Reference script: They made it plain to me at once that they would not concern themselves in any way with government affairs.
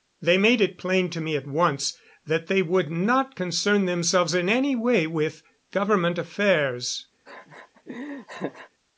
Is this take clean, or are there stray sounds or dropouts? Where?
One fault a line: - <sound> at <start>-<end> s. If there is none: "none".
- laugh at 7.3-8.7 s